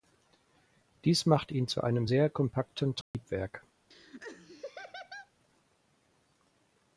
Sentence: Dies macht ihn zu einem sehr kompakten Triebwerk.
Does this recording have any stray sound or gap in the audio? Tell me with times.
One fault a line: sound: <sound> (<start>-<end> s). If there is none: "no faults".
sound: dropout (3.0-3.1 s)
sound: laugh (3.9-5.3 s)